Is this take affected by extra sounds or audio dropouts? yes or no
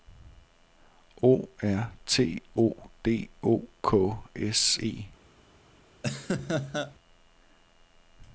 yes